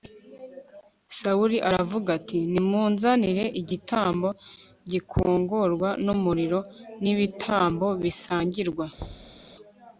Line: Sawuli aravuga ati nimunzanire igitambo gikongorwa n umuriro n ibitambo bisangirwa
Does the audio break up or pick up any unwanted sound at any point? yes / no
yes